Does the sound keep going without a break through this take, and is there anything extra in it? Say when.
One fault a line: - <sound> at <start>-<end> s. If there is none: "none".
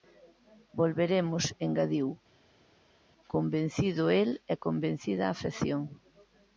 none